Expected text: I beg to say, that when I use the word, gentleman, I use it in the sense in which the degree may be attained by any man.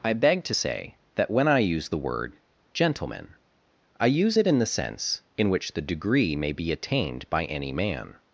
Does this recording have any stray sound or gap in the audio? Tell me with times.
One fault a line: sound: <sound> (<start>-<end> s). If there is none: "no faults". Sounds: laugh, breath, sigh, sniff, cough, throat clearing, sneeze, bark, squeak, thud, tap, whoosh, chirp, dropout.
no faults